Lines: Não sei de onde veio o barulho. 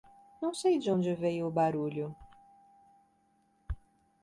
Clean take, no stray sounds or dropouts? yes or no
yes